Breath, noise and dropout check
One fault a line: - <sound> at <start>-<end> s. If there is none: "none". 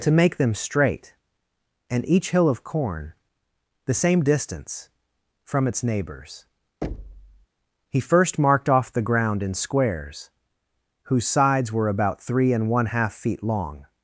- thud at 6.8-7.5 s